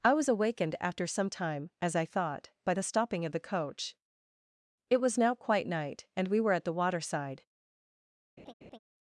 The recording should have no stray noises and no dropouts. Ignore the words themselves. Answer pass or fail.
fail